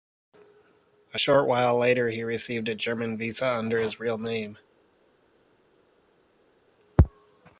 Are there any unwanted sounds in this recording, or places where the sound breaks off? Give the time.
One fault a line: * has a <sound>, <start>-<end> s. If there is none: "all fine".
all fine